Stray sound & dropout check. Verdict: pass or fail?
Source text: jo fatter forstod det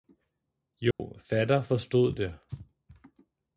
fail